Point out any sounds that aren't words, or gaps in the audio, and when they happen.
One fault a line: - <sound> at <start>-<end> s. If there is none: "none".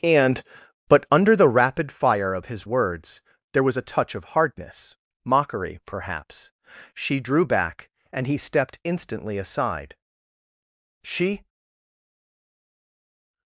none